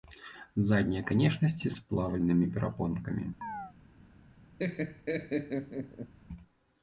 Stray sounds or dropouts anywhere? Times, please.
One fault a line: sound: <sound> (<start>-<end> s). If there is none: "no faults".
sound: chirp (3.4-3.7 s)
sound: laugh (4.6-6.1 s)